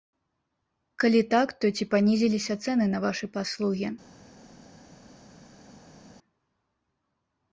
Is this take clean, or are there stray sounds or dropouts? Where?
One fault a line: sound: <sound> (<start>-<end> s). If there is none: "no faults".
no faults